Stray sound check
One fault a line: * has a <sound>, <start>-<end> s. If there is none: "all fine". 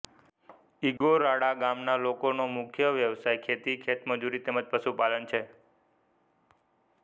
* has a dropout, 1.0-1.0 s